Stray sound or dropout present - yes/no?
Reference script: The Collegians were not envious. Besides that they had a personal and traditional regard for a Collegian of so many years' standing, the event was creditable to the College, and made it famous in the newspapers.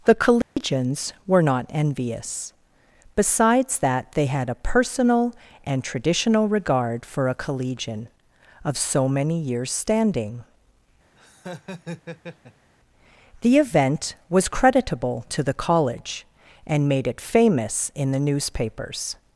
yes